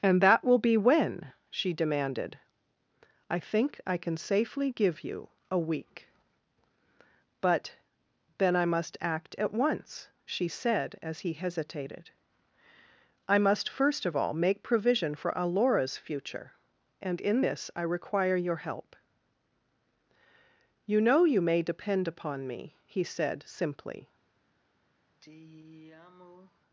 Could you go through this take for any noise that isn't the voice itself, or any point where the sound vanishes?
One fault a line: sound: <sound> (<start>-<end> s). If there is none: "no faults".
sound: sigh (25.1-26.6 s)